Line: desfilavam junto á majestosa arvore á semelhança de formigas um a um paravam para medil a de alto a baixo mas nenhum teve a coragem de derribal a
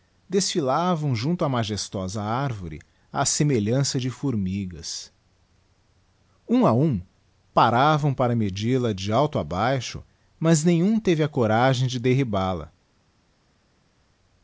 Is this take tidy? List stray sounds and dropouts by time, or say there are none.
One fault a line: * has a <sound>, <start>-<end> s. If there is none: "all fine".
all fine